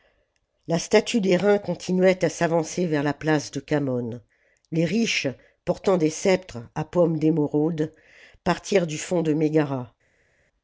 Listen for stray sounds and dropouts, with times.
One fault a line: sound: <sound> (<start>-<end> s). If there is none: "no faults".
no faults